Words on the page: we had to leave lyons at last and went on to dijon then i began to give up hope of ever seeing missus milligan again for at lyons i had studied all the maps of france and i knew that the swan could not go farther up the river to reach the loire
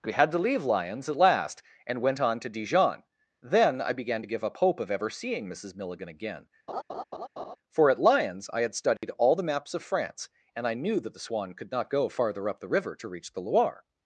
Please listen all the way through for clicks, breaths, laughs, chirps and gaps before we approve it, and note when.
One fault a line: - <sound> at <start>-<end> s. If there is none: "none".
- laugh at 6.7-7.6 s
- dropout at 9.0-9.0 s